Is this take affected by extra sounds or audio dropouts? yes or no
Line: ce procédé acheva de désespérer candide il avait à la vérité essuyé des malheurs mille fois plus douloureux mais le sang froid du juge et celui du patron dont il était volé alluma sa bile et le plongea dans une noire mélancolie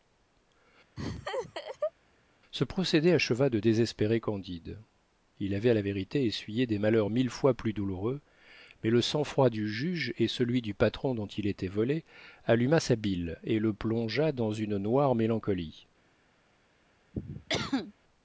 yes